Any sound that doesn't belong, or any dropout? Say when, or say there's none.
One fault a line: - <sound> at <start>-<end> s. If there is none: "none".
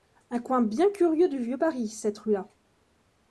none